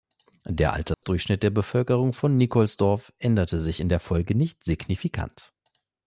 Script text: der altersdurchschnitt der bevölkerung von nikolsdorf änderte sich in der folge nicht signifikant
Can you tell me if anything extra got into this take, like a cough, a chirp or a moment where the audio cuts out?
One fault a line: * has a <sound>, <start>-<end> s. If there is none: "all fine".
* has a dropout, 0.9-1.0 s